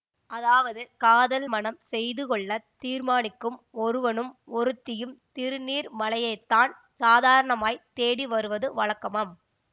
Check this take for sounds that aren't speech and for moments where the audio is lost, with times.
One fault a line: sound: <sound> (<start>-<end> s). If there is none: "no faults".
no faults